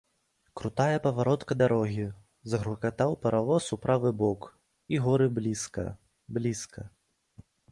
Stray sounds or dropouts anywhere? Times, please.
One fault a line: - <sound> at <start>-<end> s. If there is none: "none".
none